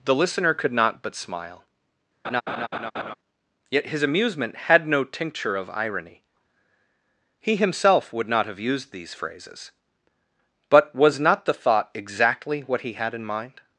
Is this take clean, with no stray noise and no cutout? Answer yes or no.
no